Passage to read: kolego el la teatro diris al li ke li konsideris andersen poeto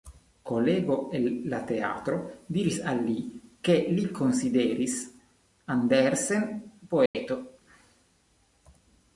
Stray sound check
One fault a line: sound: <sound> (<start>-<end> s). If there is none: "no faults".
sound: dropout (7.1-7.1 s)